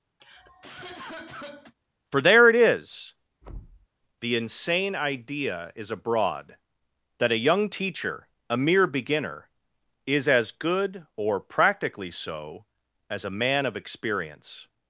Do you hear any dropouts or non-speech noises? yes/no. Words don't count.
yes